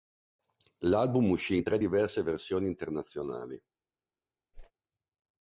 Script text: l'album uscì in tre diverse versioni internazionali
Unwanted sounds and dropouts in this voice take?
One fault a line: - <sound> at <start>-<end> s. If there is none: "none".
- whoosh at 4.5-4.7 s